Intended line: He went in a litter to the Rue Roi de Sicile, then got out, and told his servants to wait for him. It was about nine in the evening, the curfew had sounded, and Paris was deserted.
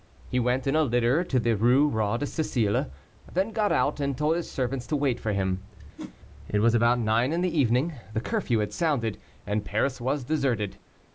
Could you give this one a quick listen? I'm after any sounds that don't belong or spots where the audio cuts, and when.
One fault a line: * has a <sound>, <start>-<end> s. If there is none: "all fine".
* has a whoosh, 6.0-6.2 s